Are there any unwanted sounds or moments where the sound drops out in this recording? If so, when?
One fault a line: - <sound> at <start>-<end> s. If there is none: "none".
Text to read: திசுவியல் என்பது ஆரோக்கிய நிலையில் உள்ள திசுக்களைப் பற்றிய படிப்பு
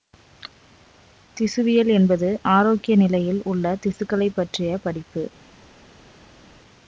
none